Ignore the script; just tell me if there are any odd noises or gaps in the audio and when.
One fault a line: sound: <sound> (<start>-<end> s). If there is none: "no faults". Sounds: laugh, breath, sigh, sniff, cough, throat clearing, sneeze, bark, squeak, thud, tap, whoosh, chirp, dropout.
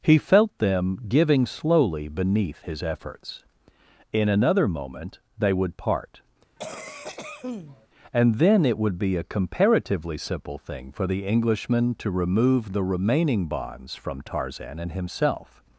sound: cough (6.6-7.9 s)